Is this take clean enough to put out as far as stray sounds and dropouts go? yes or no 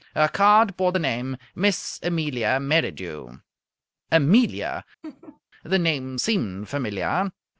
no